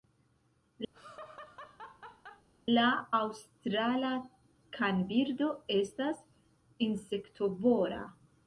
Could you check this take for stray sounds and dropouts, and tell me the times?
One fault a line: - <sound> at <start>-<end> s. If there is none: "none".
- laugh at 0.9-2.5 s